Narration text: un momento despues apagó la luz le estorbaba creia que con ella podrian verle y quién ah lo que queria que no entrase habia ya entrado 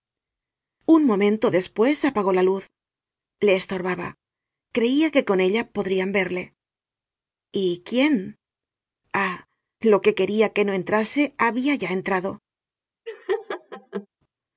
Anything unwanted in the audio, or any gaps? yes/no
yes